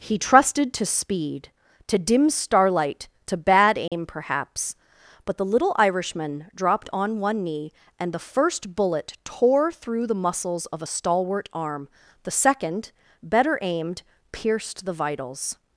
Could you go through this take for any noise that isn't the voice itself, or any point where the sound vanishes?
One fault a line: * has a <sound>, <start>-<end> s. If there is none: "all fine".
* has a dropout, 3.9-3.9 s